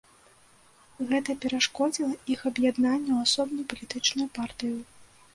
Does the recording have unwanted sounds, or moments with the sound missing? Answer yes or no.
no